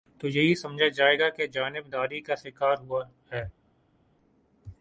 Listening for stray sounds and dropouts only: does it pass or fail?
pass